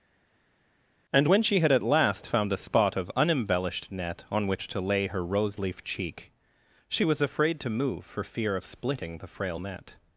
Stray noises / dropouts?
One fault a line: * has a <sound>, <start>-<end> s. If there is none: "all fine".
all fine